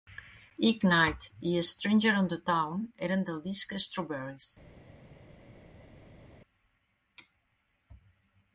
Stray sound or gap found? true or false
false